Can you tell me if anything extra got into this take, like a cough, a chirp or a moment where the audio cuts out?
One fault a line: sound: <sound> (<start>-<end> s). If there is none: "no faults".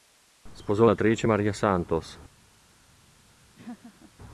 sound: laugh (3.5-4.1 s)